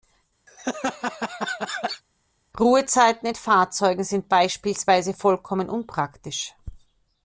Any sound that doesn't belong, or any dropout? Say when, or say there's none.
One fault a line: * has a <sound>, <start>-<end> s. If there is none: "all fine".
* has a laugh, 0.5-2.0 s